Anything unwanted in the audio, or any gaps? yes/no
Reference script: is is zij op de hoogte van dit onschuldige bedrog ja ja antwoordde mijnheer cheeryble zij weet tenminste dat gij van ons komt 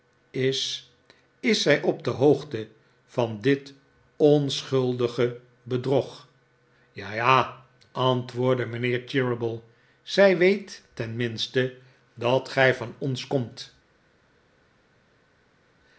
no